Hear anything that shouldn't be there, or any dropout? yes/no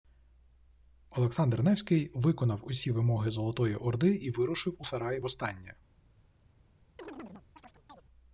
yes